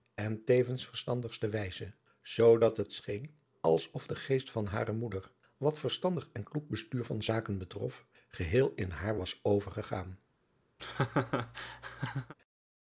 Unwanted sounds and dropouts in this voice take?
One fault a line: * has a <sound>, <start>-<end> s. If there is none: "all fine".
* has a laugh, 10.8-12.3 s